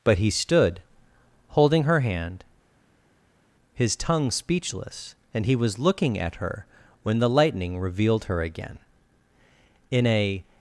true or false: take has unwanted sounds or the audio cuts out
false